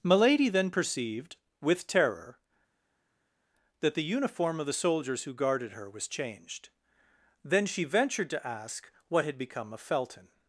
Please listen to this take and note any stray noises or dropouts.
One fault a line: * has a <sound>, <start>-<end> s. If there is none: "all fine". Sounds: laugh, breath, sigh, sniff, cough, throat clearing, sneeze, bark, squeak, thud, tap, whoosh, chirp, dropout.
all fine